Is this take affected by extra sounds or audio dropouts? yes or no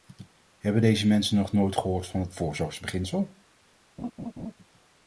yes